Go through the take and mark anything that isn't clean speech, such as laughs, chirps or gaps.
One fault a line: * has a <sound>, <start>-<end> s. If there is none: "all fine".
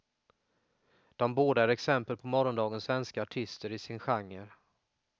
all fine